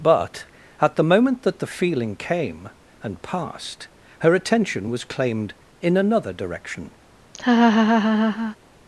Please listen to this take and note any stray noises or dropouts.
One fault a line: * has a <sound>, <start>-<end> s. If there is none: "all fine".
* has a laugh, 7.3-8.6 s